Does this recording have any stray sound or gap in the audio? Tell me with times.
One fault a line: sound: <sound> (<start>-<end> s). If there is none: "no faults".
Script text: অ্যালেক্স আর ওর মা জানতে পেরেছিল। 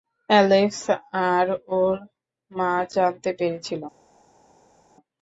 no faults